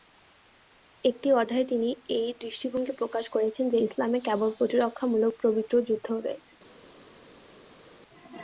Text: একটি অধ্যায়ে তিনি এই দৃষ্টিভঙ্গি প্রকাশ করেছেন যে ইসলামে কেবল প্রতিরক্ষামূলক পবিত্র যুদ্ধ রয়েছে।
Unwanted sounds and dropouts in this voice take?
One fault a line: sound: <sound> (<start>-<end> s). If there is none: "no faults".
no faults